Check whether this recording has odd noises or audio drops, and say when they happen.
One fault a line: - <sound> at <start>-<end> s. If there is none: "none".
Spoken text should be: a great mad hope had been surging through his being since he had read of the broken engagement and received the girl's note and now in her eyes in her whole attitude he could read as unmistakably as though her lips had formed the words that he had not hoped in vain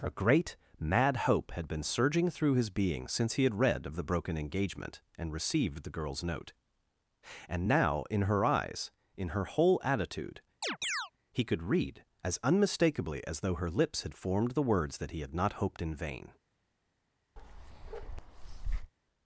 - chirp at 10.6-11.1 s
- bark at 17.4-18.9 s